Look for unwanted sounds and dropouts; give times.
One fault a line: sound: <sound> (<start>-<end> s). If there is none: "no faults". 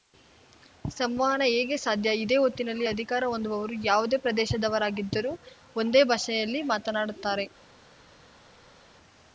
no faults